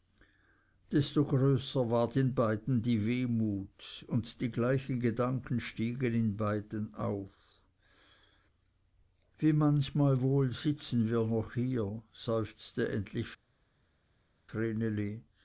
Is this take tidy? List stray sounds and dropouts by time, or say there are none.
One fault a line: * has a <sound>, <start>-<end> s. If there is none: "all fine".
all fine